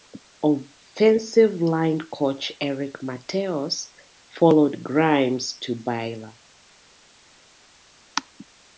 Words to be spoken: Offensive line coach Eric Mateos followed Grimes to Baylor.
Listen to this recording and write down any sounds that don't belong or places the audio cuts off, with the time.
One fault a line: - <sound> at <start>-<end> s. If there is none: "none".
none